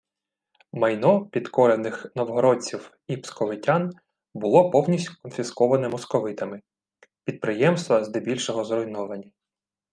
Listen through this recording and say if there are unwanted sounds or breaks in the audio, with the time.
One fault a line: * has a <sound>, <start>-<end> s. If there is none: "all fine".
all fine